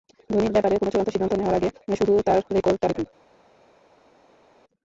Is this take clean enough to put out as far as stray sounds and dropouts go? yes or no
yes